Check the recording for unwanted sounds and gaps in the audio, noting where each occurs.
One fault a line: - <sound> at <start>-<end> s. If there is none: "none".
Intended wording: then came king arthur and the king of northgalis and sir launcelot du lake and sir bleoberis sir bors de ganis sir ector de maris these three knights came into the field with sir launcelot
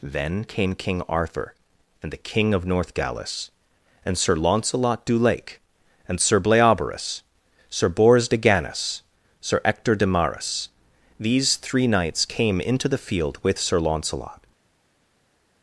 none